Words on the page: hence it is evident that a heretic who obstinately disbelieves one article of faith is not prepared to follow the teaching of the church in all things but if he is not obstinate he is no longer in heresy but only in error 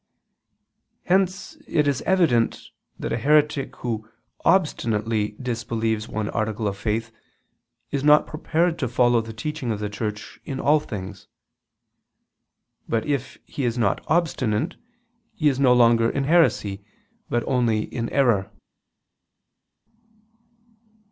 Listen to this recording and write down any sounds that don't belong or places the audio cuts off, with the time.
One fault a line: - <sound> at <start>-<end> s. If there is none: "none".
none